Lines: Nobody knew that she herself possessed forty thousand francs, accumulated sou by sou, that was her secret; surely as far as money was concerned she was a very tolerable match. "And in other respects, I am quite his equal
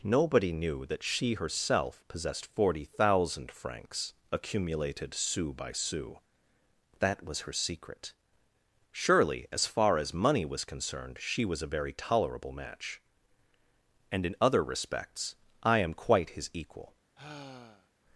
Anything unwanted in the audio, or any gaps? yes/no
yes